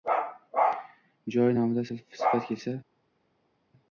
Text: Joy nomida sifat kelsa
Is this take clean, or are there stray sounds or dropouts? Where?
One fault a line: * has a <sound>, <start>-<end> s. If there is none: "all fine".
all fine